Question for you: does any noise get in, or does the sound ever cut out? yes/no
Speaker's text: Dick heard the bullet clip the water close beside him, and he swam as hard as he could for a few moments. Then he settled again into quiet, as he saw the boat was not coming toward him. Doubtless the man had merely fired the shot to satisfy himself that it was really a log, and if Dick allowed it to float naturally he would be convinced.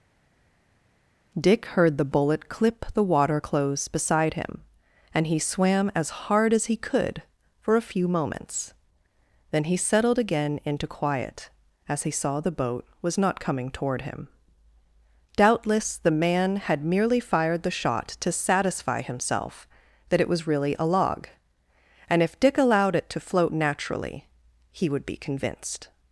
no